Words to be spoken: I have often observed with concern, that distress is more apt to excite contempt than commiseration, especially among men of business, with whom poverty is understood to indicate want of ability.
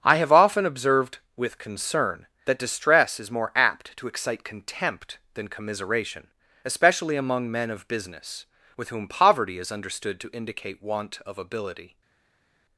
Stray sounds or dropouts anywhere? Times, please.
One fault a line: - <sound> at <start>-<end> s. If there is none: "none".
none